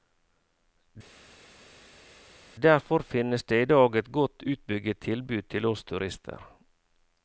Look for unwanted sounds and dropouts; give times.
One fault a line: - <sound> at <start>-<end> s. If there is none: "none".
none